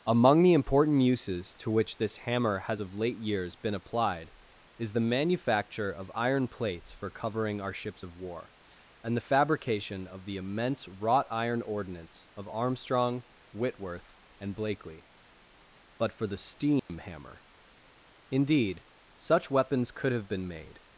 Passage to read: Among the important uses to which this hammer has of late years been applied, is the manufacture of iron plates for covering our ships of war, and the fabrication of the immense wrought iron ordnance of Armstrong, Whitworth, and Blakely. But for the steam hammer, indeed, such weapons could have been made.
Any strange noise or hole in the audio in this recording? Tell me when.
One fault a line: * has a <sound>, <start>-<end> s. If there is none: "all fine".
* has a dropout, 16.8-16.9 s